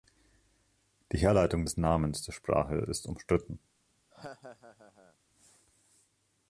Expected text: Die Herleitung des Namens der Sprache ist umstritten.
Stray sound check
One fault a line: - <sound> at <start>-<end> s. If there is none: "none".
- laugh at 4.1-5.2 s